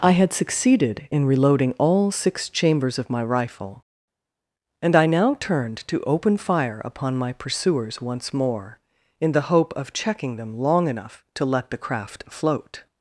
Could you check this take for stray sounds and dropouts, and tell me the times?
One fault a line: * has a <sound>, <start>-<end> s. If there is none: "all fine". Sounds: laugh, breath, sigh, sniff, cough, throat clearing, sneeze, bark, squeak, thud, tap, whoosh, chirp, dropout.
all fine